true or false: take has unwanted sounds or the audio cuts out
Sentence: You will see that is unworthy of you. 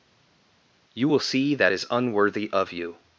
false